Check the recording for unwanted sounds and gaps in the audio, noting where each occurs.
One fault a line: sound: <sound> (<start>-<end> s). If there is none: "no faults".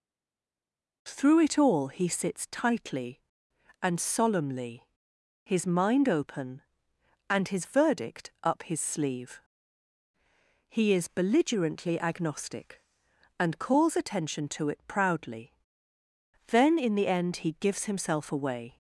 no faults